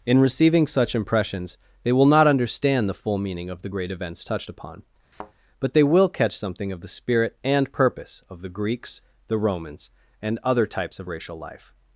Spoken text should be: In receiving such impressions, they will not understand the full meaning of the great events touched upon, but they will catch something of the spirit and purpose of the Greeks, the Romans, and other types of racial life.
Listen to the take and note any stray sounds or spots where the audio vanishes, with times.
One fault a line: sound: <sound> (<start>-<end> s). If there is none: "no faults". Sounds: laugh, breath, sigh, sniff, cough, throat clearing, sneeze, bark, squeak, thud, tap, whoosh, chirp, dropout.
sound: thud (5.1-5.3 s)